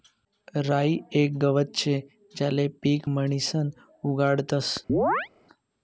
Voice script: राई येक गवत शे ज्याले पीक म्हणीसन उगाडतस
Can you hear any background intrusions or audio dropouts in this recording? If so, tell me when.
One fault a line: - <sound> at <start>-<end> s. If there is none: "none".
- chirp at 4.9-5.3 s